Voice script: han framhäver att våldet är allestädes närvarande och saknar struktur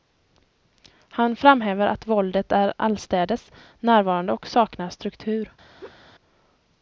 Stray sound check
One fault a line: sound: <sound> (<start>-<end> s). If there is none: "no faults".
sound: laugh (5.8-6.0 s)